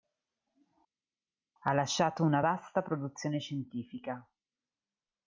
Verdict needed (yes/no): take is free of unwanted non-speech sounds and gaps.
yes